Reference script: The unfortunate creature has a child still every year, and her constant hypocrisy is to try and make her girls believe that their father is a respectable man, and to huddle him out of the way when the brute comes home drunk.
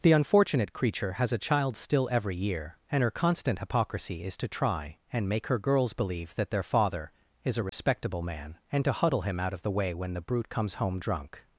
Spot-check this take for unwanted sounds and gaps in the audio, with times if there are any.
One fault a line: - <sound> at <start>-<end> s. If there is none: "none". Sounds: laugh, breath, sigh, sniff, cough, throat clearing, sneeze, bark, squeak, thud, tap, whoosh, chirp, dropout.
- dropout at 7.7-7.7 s